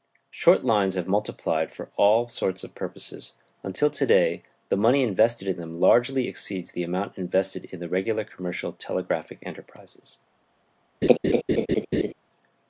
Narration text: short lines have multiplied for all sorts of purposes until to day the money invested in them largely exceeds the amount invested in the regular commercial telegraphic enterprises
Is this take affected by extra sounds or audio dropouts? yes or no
yes